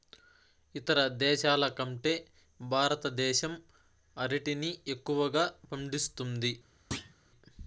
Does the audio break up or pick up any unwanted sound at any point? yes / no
yes